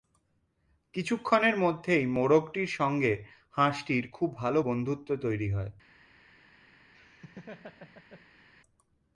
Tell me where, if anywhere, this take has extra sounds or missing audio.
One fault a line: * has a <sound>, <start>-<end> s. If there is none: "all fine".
* has a laugh, 6.9-8.5 s